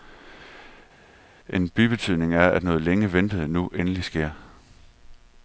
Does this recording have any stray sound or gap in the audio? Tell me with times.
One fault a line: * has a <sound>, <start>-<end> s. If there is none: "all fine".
all fine